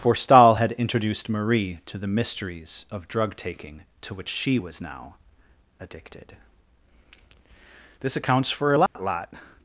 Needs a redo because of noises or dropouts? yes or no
yes